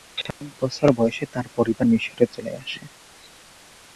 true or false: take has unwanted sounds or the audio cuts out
true